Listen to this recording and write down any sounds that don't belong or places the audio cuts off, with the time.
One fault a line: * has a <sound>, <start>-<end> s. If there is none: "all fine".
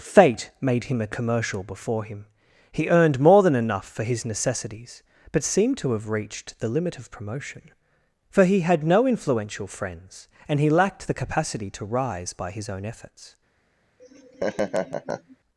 * has a laugh, 14.0-15.4 s